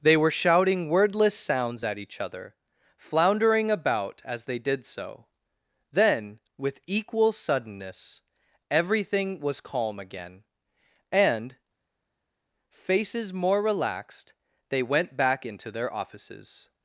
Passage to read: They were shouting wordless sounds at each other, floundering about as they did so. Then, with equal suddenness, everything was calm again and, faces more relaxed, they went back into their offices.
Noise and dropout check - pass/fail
pass